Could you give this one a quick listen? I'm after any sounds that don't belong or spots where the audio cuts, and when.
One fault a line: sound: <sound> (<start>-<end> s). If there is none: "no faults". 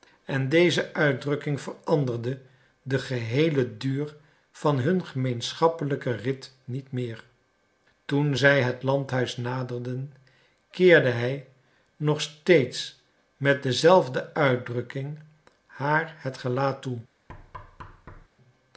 sound: thud (17.3-18.3 s)